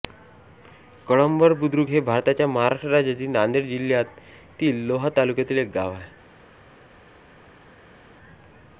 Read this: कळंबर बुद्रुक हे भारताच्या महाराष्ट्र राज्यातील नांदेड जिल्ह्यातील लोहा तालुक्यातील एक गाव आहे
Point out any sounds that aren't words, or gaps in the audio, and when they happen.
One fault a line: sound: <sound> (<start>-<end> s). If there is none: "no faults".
no faults